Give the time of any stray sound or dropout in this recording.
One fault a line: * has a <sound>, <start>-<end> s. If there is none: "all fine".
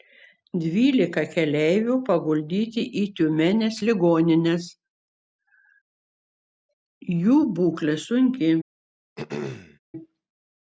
* has a throat clearing, 9.2-9.8 s